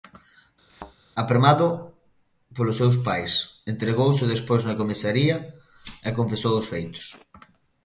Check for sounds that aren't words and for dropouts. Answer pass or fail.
fail